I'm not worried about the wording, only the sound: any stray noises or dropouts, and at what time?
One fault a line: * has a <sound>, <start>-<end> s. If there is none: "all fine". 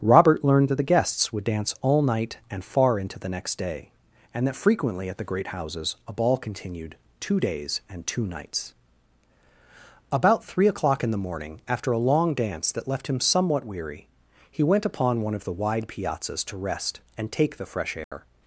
* has a dropout, 18.0-18.1 s